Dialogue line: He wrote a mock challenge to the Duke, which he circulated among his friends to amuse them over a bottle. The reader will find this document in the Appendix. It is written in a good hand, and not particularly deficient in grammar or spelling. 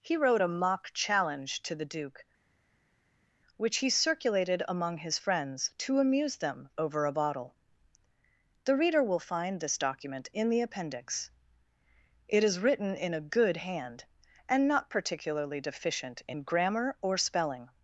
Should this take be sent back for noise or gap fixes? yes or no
no